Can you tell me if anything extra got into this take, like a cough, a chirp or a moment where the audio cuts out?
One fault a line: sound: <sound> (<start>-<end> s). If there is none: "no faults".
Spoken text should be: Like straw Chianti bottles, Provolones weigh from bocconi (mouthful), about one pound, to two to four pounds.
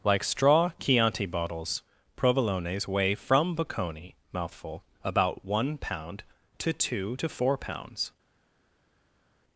no faults